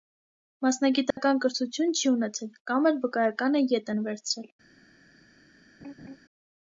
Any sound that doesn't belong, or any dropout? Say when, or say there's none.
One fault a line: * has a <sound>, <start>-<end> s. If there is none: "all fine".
* has a dropout, 1.1-1.2 s
* has a laugh, 5.8-6.2 s